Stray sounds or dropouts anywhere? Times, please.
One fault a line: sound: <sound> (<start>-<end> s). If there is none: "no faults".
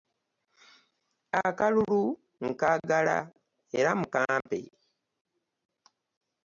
sound: dropout (4.4-4.5 s)